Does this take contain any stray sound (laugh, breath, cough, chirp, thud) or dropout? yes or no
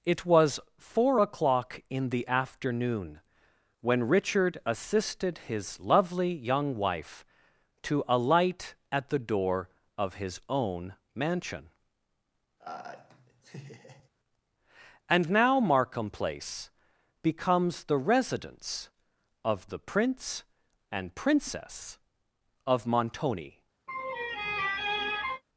yes